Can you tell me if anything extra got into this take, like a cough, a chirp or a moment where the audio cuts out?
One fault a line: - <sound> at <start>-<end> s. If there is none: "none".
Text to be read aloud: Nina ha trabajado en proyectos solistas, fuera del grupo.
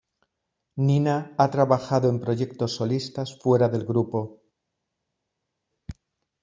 none